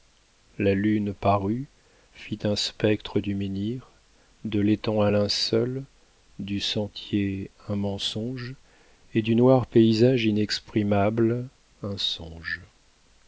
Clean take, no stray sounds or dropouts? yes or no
yes